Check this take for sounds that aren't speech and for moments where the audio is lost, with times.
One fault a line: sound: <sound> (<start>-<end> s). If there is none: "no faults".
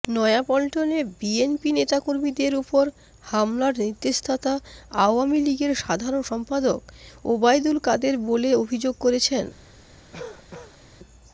sound: cough (10.1-10.8 s)